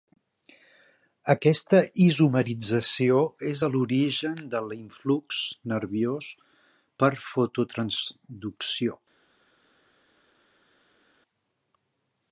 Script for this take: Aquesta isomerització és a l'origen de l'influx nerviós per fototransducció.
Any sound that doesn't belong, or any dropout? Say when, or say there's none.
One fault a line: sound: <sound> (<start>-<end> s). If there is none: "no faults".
no faults